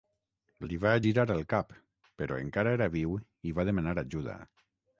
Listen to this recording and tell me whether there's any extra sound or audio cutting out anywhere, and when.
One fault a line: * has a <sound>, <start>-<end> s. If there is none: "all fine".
all fine